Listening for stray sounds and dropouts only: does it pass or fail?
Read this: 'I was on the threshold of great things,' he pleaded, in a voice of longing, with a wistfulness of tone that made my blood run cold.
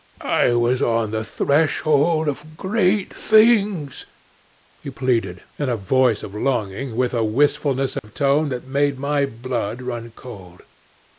fail